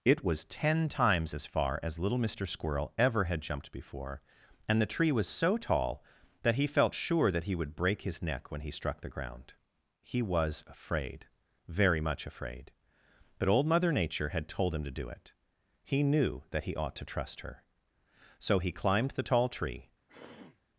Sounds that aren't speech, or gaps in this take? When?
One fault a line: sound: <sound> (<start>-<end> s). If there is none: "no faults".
sound: throat clearing (20.1-20.6 s)